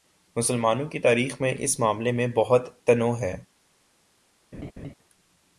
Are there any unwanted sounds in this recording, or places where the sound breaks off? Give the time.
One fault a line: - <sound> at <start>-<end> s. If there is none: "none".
- laugh at 4.5-4.9 s